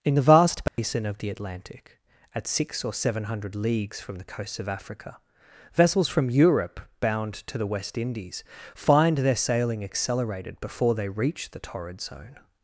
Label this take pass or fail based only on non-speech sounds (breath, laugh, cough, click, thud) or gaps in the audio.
fail